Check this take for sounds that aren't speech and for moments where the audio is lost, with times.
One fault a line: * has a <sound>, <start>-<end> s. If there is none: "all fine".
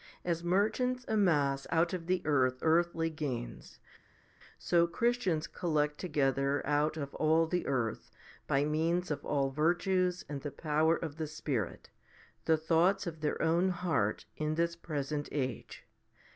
all fine